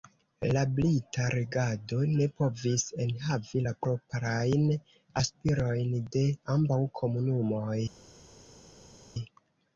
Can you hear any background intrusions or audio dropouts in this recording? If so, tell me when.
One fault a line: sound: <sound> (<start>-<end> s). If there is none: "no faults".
no faults